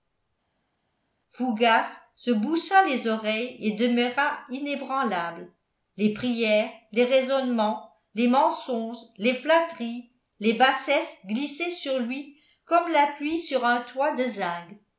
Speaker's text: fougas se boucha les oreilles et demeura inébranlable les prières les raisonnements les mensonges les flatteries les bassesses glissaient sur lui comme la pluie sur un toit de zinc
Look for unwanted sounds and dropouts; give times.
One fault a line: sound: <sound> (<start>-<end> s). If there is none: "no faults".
no faults